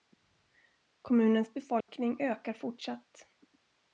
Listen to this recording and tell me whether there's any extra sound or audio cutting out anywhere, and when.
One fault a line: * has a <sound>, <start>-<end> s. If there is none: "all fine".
* has a dropout, 1.8-1.9 s